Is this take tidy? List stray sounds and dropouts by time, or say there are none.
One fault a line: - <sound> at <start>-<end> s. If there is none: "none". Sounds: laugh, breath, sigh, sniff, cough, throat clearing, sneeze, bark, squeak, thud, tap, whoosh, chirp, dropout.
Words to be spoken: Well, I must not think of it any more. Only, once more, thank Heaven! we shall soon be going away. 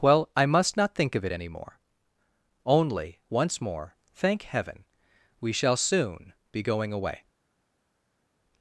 none